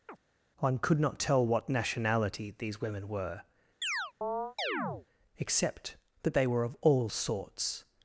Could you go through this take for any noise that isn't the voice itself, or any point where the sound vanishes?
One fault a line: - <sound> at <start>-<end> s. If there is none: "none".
- chirp at 0.1-0.2 s
- chirp at 3.8-5.1 s